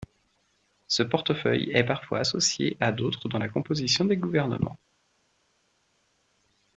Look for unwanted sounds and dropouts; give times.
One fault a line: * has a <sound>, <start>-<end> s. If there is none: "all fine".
all fine